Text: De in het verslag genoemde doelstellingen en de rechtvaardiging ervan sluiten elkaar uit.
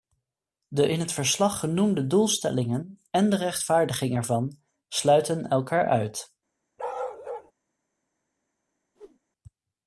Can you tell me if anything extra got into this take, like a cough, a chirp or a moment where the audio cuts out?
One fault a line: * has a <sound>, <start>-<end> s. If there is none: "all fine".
* has a bark, 6.8-7.5 s
* has a whoosh, 8.9-9.2 s